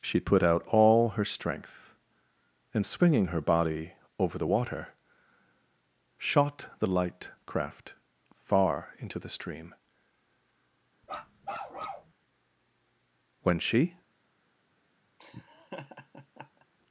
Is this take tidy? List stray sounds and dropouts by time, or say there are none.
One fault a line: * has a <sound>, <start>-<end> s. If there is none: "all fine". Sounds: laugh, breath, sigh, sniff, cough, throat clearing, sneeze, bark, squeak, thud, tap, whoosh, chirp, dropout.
* has a bark, 11.0-12.1 s
* has a laugh, 15.2-16.7 s